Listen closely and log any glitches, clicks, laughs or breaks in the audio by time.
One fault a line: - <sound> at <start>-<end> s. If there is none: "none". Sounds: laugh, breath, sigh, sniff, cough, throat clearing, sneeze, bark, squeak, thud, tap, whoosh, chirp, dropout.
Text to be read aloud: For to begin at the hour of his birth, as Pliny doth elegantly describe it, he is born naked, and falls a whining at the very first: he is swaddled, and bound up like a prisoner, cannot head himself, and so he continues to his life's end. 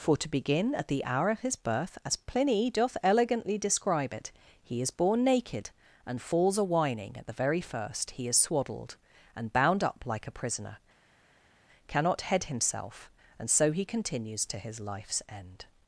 none